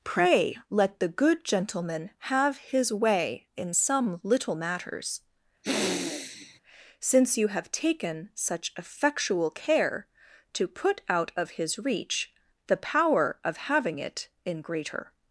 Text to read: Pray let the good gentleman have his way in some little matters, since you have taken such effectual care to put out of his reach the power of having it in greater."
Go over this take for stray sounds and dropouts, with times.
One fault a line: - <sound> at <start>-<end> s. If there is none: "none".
- sniff at 5.6-6.6 s